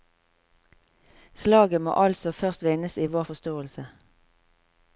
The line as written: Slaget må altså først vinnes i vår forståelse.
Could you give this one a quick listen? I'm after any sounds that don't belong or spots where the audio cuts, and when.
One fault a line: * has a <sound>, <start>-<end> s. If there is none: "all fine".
all fine